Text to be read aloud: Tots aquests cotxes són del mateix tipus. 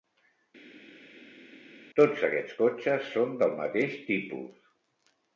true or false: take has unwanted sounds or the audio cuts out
false